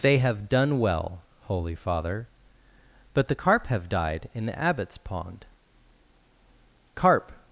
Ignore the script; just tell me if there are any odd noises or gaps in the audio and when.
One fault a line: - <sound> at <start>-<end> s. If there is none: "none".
none